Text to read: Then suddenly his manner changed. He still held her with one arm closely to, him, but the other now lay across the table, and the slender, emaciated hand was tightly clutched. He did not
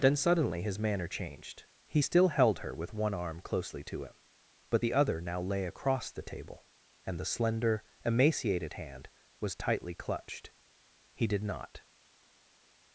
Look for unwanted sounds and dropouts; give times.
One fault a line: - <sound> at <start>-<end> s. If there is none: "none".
none